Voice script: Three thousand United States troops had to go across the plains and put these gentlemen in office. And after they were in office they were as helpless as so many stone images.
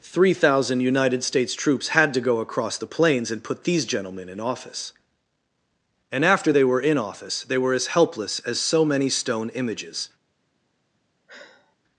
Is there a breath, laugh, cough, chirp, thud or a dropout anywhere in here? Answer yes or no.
yes